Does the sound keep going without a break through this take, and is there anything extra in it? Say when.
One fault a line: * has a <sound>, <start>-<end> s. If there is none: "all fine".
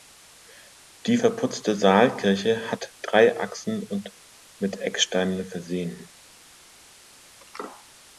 all fine